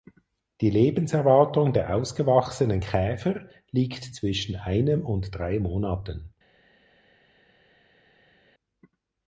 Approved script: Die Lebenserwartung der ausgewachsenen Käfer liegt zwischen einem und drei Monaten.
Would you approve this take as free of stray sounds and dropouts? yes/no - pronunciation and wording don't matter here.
yes